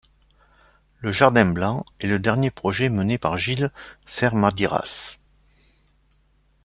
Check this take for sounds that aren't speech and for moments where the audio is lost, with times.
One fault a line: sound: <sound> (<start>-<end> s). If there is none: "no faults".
no faults